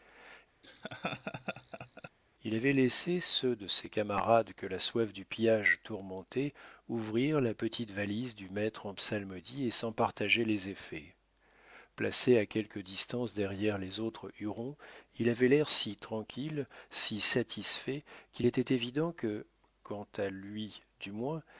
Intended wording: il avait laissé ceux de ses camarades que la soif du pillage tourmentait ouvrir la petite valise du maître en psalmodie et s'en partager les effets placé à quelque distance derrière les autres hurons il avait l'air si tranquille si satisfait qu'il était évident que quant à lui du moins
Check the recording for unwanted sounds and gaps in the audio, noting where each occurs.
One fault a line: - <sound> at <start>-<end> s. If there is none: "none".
- laugh at 0.6-2.1 s